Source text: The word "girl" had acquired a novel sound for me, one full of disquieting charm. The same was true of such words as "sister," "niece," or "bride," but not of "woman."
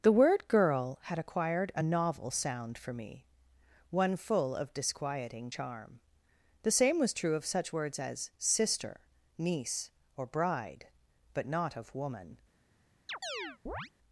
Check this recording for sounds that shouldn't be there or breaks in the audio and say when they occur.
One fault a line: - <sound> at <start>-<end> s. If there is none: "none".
- chirp at 13.1-13.9 s